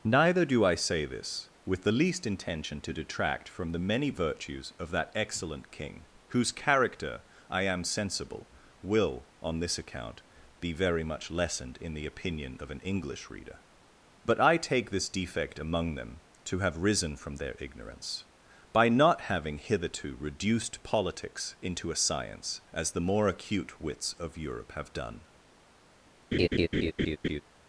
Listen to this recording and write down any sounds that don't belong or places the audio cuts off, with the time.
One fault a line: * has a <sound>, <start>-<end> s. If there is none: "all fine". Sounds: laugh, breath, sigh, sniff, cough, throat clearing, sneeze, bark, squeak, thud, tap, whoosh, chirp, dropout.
* has a laugh, 26.3-27.4 s